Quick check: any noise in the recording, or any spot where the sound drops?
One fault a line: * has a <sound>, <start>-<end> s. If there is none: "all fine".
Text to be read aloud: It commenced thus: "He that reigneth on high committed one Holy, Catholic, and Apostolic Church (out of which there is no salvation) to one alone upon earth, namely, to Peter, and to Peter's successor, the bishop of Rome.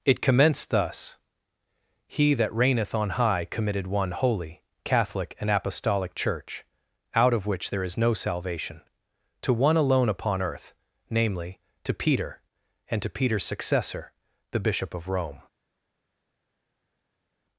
all fine